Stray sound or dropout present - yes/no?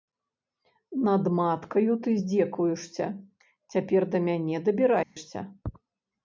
yes